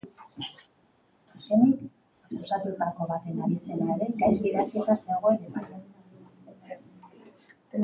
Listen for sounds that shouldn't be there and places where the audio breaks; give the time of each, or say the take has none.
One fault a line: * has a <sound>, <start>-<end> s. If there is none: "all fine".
all fine